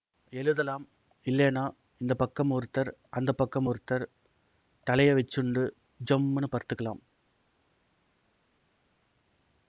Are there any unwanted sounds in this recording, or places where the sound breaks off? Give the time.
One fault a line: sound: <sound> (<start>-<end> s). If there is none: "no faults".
no faults